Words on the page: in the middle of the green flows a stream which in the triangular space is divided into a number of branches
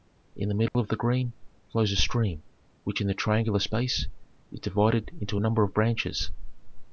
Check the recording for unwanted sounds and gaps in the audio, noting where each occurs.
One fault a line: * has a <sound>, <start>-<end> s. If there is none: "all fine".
* has a dropout, 0.7-0.7 s